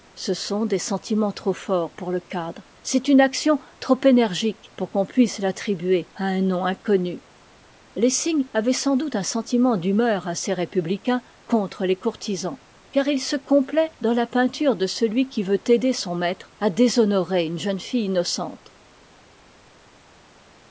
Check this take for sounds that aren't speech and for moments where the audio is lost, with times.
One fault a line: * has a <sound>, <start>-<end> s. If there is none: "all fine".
all fine